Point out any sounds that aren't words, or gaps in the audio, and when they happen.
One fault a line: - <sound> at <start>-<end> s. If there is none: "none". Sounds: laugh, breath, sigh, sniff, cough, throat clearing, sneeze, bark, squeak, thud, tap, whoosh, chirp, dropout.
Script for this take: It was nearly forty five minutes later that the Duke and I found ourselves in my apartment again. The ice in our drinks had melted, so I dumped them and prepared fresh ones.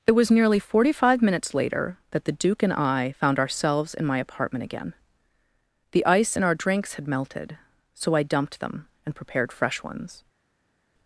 none